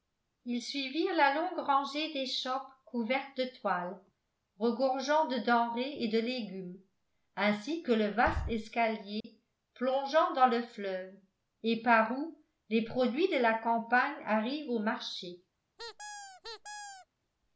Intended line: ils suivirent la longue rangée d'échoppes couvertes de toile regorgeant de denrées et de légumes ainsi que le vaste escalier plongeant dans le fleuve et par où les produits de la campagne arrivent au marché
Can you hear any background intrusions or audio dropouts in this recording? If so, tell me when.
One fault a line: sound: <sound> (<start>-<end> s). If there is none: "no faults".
sound: dropout (9.2-9.2 s)
sound: squeak (15.8-17.1 s)